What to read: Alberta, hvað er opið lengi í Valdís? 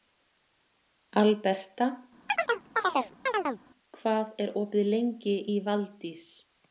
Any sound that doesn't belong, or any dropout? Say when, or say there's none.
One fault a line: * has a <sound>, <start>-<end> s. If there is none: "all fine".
* has a chirp, 2.3-3.6 s